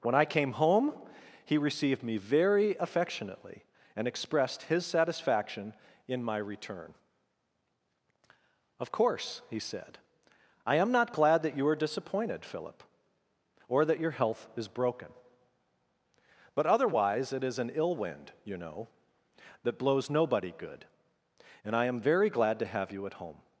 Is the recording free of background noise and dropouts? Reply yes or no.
yes